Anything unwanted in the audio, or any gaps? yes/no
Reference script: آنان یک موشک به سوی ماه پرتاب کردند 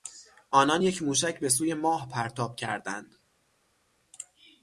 no